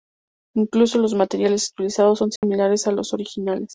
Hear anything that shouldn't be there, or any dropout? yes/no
yes